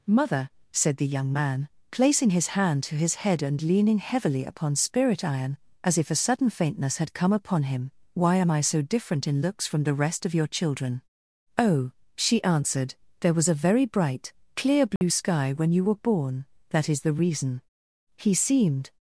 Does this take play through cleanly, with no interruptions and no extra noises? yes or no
no